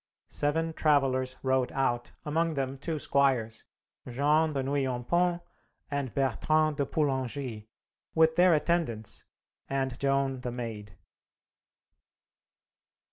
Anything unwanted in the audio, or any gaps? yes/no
no